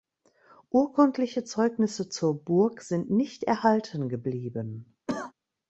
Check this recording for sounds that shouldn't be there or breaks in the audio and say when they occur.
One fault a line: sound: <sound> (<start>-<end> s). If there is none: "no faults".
sound: cough (5.1-5.3 s)